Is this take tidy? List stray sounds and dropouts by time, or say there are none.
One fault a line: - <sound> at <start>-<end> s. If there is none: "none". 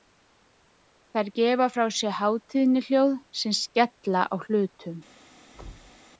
- thud at 5.5-6.0 s